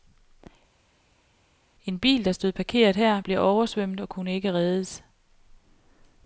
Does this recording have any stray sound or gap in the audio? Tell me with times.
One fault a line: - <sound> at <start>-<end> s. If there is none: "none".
none